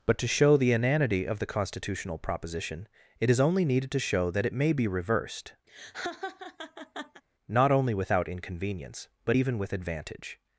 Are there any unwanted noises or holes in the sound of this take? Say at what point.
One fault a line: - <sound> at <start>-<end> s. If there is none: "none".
- laugh at 5.7-7.2 s